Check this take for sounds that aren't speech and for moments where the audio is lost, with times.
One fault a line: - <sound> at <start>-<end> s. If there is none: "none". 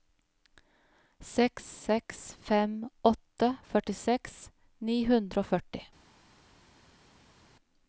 none